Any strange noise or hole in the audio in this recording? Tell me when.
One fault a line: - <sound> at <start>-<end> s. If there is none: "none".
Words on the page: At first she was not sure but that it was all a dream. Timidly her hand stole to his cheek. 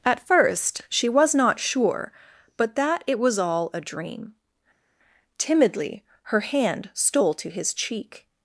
none